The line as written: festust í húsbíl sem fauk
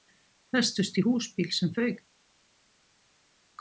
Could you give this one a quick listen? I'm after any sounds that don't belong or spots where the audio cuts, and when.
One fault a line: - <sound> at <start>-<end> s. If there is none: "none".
none